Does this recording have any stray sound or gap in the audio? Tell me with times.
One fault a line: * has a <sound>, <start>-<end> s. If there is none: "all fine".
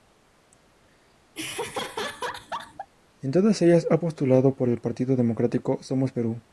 * has a laugh, 1.3-2.9 s